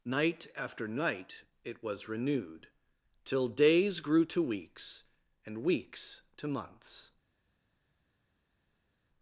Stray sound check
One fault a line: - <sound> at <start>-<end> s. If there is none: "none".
none